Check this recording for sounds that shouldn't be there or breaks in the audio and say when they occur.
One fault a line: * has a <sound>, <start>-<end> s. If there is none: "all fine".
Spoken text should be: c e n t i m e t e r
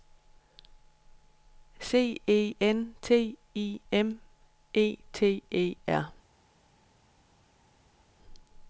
all fine